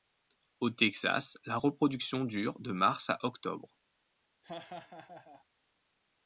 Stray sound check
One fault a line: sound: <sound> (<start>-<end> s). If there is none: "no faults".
sound: laugh (4.4-5.5 s)